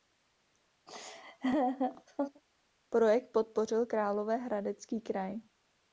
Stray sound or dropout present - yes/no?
yes